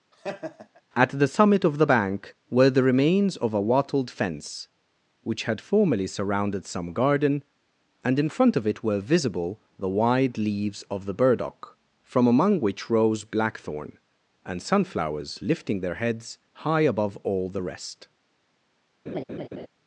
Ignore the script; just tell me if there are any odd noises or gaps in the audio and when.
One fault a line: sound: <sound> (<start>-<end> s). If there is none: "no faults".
sound: laugh (0.1-0.8 s)
sound: laugh (19.1-19.7 s)